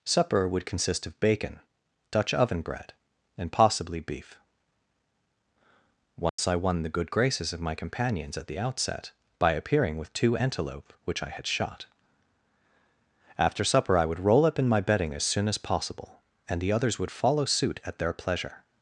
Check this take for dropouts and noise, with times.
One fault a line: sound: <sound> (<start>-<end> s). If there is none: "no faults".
sound: dropout (6.3-6.4 s)